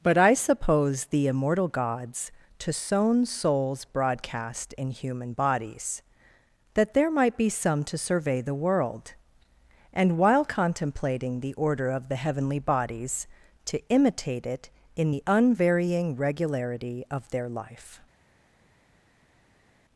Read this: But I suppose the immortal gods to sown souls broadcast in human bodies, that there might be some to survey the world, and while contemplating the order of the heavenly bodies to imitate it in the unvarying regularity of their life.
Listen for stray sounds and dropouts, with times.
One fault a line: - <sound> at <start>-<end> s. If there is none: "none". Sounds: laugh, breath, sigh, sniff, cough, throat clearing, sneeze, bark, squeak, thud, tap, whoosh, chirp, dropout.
none